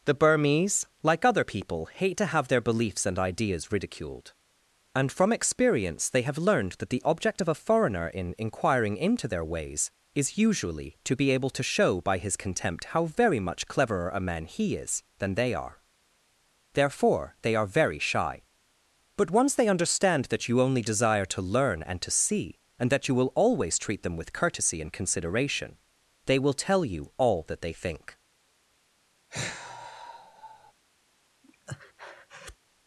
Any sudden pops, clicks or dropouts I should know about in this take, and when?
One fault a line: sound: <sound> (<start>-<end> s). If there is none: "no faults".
sound: sigh (29.3-30.7 s)
sound: breath (31.4-32.6 s)